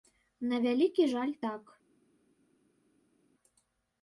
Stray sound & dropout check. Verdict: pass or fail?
pass